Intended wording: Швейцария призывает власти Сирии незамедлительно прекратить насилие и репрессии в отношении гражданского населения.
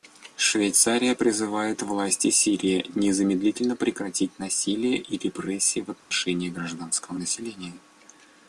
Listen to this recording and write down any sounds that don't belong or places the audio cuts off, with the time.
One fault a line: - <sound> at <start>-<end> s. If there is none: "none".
- dropout at 6.0-6.1 s